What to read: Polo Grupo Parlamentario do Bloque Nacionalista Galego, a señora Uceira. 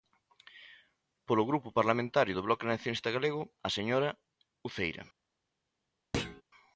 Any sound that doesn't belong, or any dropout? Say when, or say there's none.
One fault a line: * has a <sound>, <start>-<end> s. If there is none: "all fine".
* has a thud, 6.1-6.4 s